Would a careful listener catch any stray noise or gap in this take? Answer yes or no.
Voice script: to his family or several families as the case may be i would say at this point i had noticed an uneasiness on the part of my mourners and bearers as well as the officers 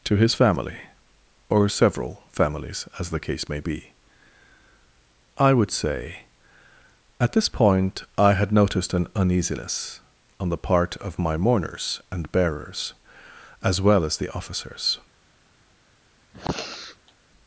yes